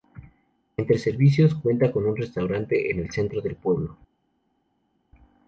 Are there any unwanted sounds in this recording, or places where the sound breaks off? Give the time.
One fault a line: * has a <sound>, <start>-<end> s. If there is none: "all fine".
all fine